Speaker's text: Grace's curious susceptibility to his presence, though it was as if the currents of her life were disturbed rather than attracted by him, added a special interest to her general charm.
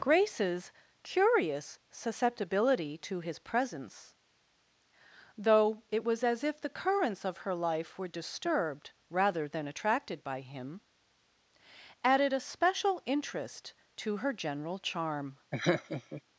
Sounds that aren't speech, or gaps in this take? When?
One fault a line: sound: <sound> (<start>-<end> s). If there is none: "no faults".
sound: laugh (15.5-16.2 s)